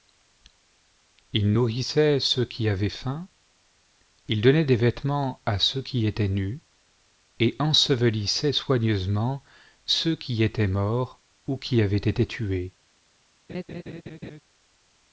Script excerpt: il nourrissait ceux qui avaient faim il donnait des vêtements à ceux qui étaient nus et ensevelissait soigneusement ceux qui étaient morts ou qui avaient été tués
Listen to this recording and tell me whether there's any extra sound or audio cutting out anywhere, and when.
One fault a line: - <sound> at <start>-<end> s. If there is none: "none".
- laugh at 13.5-14.4 s